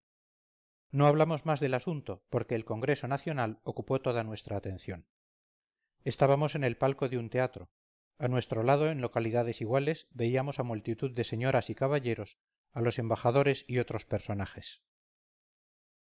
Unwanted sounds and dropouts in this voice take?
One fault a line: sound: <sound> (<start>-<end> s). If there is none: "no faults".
no faults